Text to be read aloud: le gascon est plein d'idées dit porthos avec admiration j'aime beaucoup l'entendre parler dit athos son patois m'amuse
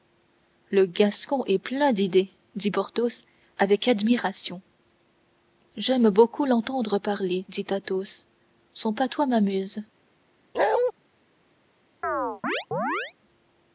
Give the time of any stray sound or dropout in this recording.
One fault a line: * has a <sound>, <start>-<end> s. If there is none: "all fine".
* has a bark, 10.5-10.9 s
* has a chirp, 12.0-13.1 s